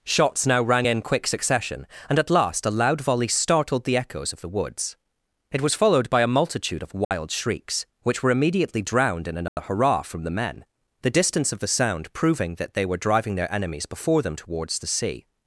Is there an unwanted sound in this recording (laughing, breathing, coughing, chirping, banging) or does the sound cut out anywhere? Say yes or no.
yes